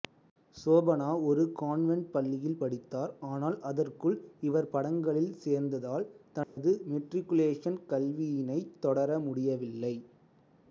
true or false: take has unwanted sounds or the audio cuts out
true